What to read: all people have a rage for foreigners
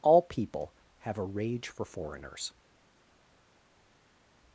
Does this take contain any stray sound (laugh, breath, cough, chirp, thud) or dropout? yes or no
no